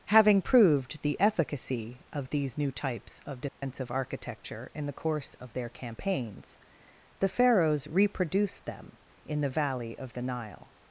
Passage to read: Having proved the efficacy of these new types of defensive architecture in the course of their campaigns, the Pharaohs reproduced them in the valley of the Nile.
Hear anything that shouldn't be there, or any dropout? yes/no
yes